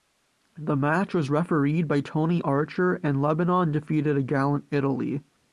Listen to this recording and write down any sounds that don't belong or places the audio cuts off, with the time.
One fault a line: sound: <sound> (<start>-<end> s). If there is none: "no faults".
no faults